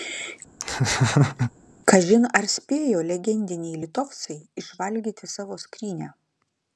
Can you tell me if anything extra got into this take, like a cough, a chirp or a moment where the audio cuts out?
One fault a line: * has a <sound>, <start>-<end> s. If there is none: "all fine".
* has a laugh, 0.6-1.5 s